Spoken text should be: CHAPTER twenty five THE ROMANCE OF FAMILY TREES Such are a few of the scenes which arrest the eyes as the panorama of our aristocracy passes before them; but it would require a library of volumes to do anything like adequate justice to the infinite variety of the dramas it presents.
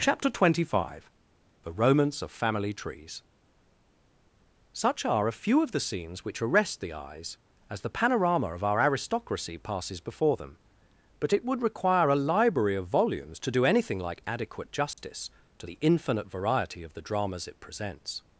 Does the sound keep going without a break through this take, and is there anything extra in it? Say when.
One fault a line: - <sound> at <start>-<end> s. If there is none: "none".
- dropout at 14.9-15.0 s